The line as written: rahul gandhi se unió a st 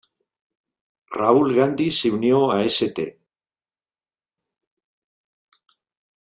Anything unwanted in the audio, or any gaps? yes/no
no